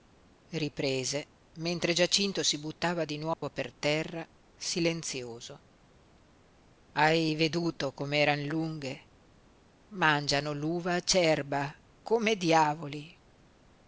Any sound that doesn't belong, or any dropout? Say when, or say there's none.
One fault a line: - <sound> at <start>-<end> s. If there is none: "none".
- dropout at 3.3-3.4 s